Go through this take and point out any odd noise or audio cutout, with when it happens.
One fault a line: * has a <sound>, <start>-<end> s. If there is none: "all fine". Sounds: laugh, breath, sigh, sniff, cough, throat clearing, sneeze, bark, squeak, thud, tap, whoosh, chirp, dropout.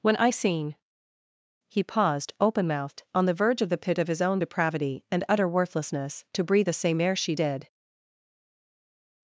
all fine